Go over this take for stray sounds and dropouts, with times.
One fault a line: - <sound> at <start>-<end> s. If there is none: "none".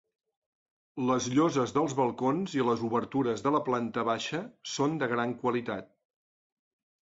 none